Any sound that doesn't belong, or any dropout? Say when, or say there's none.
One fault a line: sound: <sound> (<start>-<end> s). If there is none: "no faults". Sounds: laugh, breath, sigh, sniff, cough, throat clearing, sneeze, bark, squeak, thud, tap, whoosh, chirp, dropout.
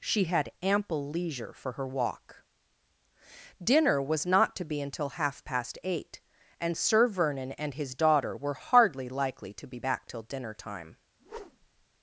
sound: whoosh (11.2-11.9 s)